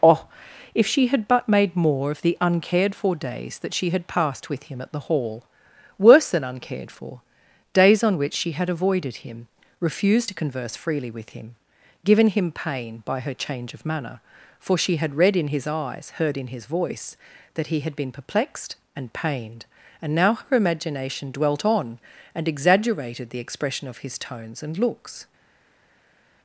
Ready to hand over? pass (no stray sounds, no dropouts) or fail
pass